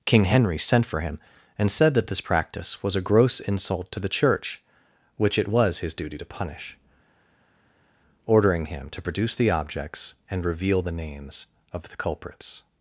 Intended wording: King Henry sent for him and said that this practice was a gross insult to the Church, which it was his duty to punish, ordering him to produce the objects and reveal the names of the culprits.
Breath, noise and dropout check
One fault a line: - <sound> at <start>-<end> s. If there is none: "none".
none